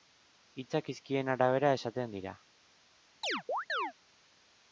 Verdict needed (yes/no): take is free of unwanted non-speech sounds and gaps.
no